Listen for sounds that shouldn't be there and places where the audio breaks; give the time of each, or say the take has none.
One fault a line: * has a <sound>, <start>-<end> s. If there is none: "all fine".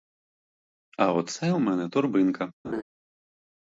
* has a laugh, 2.6-2.8 s